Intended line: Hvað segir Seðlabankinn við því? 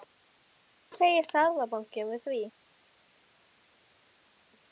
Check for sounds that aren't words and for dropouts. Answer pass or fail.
pass